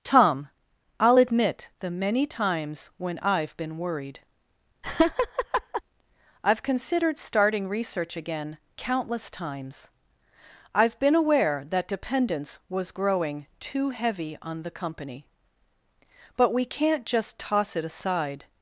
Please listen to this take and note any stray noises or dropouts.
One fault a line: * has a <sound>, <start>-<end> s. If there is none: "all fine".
* has a laugh, 4.8-5.8 s